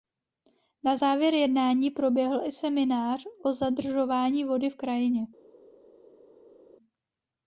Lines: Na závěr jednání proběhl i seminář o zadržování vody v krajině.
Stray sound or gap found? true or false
false